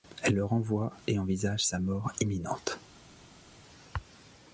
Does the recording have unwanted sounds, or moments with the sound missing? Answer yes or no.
no